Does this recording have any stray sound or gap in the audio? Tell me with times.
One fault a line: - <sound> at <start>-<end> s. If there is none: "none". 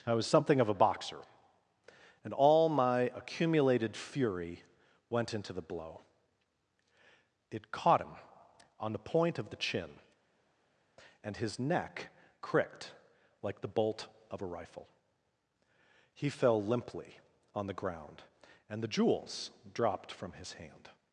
none